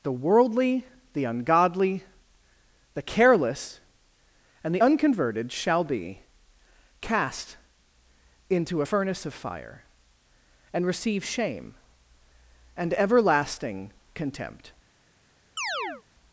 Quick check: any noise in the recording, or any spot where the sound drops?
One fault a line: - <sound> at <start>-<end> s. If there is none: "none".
- chirp at 15.6-16.0 s